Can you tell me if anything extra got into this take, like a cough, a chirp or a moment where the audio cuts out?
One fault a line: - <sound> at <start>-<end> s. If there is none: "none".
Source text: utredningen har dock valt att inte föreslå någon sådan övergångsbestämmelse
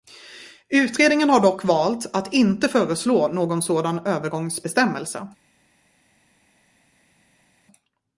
none